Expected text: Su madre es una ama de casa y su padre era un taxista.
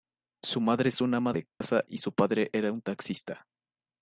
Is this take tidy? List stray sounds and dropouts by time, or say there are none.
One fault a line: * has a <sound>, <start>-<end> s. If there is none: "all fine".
* has a dropout, 1.5-1.6 s